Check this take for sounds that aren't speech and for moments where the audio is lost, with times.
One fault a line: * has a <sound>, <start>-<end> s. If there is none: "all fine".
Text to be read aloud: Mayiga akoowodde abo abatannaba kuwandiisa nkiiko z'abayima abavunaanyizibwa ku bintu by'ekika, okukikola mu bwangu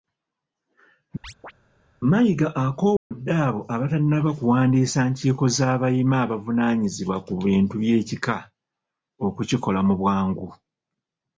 * has a chirp, 1.2-1.5 s
* has a dropout, 3.0-3.1 s